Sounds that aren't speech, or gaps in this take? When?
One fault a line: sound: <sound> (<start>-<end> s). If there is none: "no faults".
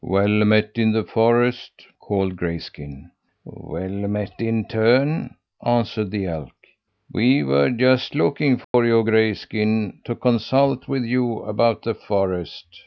sound: dropout (8.6-8.7 s)